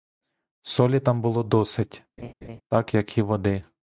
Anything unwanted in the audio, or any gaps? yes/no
yes